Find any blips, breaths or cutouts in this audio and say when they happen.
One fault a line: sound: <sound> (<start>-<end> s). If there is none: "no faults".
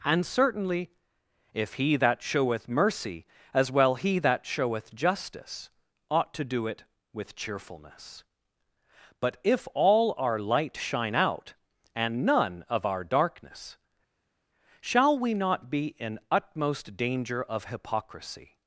no faults